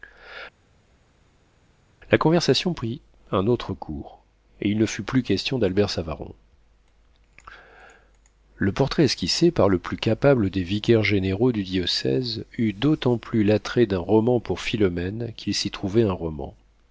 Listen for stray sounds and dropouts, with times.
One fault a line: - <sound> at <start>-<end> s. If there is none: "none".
none